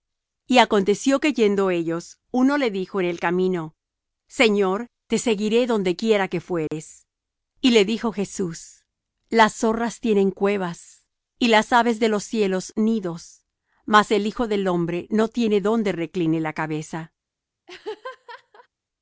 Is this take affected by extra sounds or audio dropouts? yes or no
yes